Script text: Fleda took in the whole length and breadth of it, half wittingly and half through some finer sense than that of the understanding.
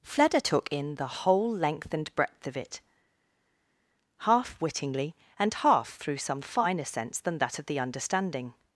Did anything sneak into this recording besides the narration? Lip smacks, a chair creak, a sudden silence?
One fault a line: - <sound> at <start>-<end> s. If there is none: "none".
none